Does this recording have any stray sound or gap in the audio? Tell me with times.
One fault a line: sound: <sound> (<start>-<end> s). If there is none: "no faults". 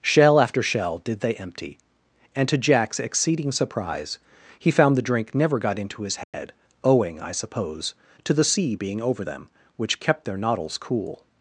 sound: dropout (6.2-6.3 s)